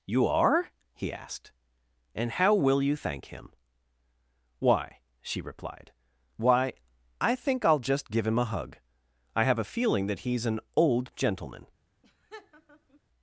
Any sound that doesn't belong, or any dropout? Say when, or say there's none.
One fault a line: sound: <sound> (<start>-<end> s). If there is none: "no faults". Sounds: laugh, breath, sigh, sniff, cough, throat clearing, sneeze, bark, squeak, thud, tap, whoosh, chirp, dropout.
sound: laugh (12.0-13.0 s)